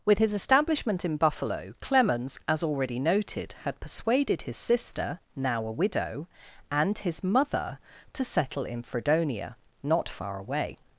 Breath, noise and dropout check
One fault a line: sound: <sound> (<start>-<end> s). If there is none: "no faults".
no faults